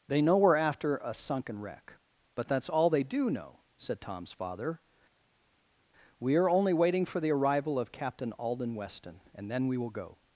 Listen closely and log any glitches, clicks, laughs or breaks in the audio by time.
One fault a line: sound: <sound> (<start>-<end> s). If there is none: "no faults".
no faults